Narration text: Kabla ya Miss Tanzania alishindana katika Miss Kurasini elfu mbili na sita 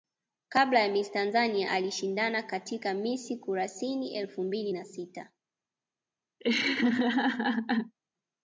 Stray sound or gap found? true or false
true